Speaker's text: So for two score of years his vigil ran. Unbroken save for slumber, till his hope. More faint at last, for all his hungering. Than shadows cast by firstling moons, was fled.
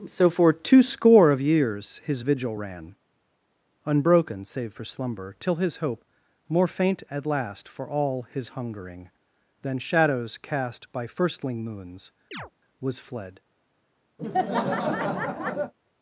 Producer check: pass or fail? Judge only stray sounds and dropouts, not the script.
fail